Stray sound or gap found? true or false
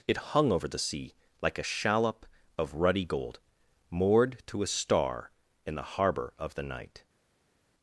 false